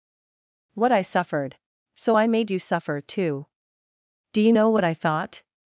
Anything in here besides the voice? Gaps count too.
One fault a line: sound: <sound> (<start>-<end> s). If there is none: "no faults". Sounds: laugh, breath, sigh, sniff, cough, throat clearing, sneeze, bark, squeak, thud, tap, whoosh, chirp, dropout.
no faults